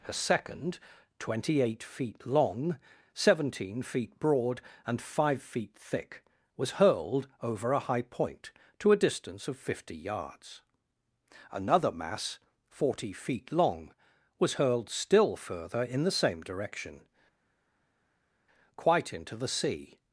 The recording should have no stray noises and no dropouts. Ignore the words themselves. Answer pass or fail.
pass